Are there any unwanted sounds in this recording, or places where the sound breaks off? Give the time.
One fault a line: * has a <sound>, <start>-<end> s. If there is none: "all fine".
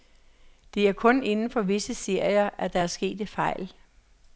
all fine